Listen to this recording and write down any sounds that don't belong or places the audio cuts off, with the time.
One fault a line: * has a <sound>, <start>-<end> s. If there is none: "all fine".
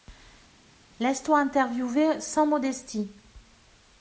all fine